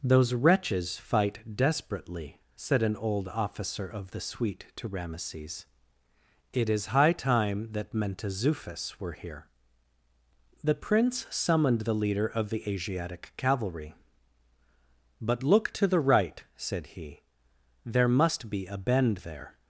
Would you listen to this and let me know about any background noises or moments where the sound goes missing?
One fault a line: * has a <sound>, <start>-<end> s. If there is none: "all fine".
all fine